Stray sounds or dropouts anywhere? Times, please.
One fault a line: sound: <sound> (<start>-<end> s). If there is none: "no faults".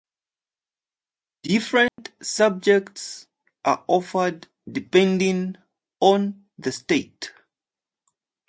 sound: dropout (1.9-2.0 s)